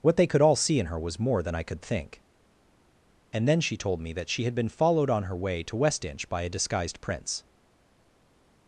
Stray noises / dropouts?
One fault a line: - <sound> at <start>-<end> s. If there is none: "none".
none